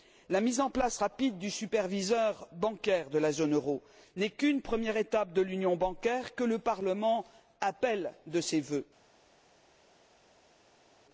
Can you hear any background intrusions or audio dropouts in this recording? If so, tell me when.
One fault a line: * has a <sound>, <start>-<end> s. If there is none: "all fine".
all fine